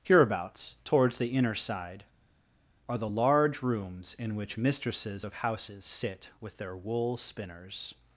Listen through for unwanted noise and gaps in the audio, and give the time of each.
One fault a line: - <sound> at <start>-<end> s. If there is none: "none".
none